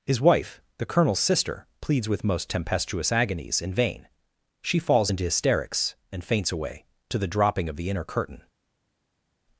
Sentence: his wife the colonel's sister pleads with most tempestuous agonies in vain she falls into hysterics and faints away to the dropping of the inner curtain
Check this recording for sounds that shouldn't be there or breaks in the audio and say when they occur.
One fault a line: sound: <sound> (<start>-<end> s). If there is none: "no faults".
no faults